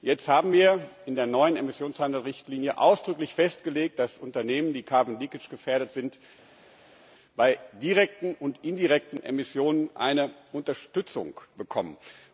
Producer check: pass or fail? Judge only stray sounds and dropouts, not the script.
pass